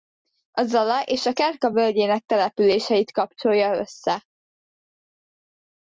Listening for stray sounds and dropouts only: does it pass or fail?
pass